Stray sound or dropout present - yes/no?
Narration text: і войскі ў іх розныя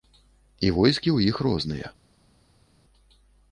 no